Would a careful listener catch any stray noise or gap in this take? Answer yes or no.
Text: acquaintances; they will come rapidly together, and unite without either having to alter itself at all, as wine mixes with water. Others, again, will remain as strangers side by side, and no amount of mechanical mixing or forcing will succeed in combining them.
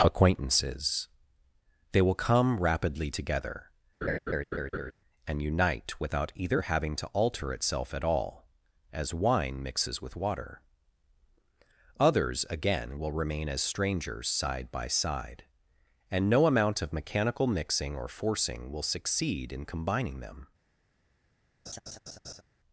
yes